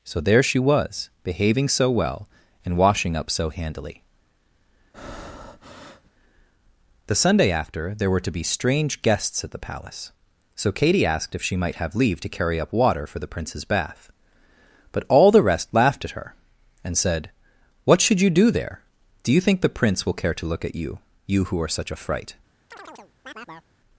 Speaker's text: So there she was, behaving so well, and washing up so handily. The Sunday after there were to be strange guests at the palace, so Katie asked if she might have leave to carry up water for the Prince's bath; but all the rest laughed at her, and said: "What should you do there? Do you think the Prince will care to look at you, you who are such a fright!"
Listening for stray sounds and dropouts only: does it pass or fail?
fail